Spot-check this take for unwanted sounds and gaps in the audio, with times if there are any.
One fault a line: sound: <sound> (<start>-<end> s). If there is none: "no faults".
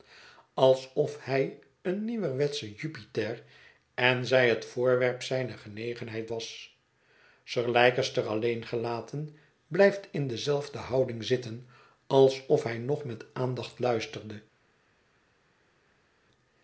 no faults